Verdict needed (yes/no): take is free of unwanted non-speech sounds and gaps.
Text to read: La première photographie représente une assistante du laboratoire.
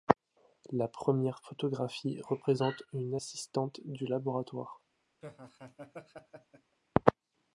no